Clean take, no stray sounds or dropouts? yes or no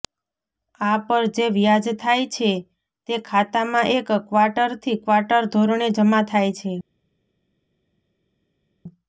yes